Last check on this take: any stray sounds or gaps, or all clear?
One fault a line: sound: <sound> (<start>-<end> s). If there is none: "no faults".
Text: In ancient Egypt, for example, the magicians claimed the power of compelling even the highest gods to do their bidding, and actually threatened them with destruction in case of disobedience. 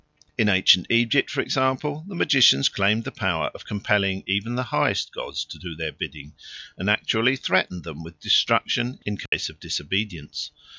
sound: dropout (9.3-9.3 s)